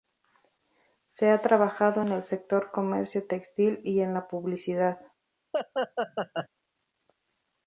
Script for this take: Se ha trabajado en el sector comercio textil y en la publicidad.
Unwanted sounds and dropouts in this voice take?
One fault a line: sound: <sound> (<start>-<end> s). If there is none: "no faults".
sound: laugh (5.5-6.5 s)